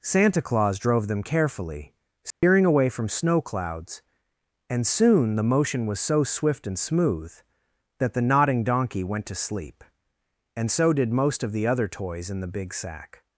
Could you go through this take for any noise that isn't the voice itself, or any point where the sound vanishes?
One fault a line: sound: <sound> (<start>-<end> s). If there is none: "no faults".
sound: dropout (2.3-2.4 s)